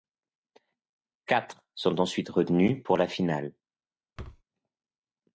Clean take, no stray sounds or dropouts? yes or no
no